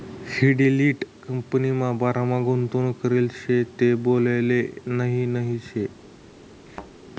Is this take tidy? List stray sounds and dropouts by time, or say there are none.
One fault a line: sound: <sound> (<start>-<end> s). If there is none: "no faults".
sound: thud (6.7-6.9 s)